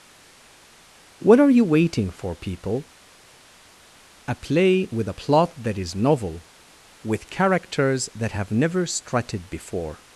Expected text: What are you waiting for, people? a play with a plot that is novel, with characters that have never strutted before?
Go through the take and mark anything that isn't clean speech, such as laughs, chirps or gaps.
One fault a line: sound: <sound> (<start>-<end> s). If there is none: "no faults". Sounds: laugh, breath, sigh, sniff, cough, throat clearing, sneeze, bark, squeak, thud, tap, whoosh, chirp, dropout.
no faults